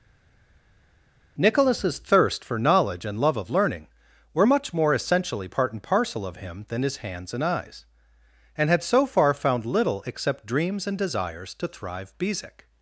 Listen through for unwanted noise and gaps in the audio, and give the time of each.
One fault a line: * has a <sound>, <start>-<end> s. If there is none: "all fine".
all fine